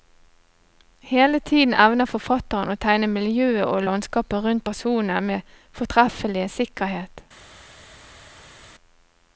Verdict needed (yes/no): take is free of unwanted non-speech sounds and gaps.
yes